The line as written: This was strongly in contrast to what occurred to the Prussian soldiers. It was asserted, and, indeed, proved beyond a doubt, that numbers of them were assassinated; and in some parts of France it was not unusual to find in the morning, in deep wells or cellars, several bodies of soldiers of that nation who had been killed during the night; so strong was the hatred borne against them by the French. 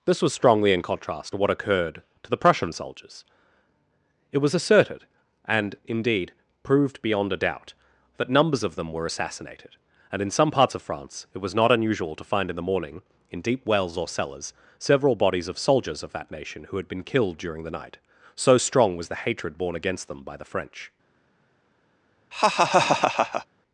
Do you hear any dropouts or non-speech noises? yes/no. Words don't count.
yes